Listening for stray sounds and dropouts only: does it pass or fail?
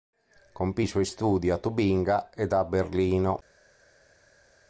pass